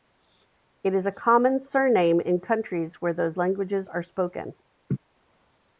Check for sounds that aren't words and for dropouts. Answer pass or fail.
fail